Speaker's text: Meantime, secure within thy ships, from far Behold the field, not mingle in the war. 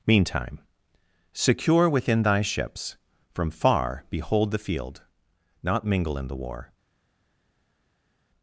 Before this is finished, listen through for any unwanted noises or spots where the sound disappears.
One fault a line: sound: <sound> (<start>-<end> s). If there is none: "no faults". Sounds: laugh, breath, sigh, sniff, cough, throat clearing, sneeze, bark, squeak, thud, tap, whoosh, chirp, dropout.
no faults